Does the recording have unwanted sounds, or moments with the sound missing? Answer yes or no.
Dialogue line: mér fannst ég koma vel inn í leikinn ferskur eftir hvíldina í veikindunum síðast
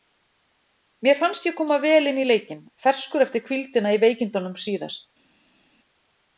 no